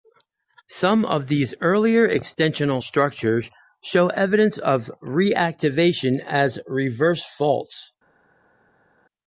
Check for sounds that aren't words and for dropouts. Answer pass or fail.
pass